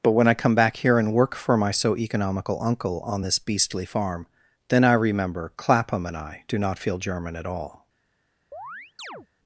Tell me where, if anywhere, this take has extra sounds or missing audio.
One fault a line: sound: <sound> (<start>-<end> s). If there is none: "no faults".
sound: chirp (8.5-9.3 s)